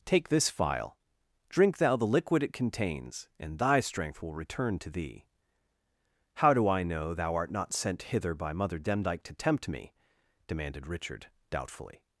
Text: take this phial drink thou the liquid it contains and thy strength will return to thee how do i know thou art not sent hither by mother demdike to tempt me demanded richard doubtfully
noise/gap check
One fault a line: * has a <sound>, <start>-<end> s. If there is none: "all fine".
all fine